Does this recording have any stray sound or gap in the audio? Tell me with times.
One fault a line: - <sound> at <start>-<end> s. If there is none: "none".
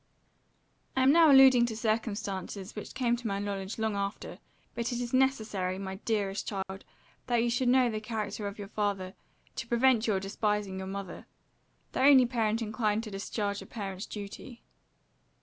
- dropout at 6.6-6.7 s